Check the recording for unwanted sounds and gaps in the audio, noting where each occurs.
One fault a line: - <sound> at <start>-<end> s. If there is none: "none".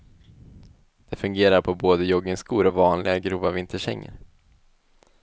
none